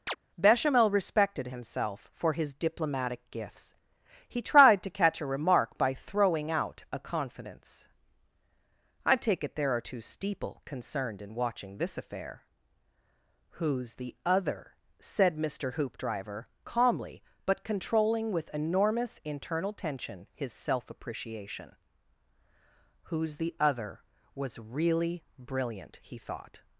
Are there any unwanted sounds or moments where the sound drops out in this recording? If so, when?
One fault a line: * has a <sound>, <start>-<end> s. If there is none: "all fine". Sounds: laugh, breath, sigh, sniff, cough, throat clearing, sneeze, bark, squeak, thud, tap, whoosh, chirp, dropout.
* has a chirp, 0.1-0.2 s